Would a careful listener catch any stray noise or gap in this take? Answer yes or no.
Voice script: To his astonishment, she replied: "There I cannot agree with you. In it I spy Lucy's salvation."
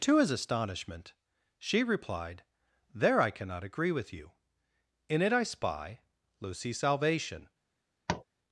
yes